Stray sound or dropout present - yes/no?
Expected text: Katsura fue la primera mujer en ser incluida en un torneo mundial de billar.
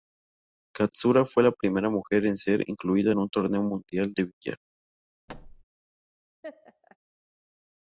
yes